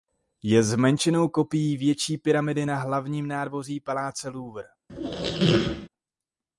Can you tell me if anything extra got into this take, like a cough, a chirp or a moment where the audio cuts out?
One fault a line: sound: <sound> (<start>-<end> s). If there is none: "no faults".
sound: squeak (4.9-5.9 s)